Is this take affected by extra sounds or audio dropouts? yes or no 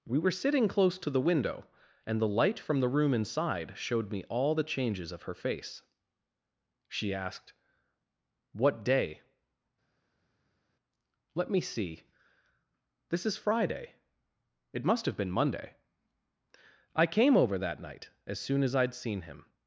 no